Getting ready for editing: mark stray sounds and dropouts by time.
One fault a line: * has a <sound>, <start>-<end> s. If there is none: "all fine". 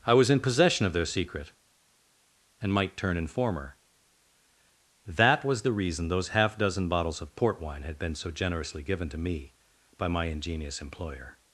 all fine